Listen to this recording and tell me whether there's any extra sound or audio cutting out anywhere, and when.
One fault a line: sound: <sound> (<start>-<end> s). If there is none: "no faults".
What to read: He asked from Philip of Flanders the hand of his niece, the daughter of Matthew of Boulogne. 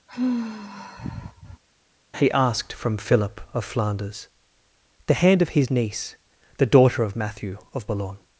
sound: sigh (0.1-1.6 s)